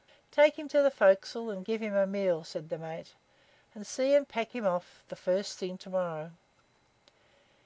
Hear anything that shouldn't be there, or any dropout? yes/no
no